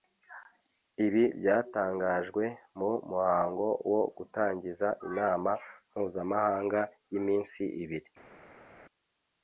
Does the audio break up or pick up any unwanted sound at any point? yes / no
no